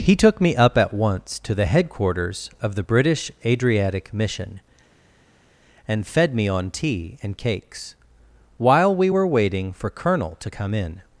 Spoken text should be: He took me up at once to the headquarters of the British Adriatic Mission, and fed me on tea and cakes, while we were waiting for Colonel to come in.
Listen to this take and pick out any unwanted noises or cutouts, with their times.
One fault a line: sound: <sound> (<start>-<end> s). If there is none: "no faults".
no faults